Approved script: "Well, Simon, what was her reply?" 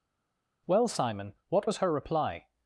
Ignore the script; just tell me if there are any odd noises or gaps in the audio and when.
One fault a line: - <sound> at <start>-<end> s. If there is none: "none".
none